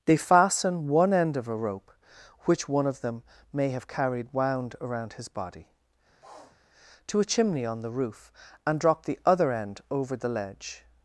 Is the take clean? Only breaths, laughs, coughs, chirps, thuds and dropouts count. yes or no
no